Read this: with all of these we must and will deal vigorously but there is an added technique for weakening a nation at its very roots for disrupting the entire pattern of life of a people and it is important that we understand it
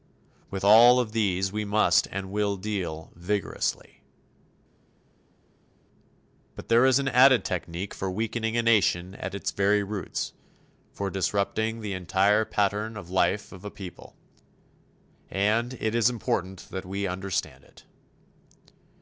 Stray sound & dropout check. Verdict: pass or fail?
pass